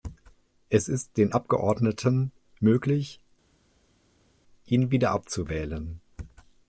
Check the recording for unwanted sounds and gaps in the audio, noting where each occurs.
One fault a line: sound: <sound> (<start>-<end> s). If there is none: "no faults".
no faults